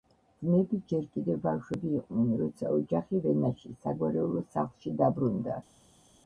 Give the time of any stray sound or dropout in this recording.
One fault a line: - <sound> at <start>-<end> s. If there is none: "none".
none